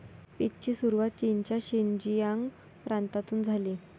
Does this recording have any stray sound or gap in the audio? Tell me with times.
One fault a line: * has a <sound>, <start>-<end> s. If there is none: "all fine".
all fine